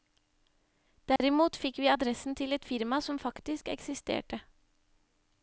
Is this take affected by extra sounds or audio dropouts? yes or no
yes